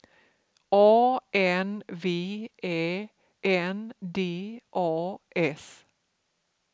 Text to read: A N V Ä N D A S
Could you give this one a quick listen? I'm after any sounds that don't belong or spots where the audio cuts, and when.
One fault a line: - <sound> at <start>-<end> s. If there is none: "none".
none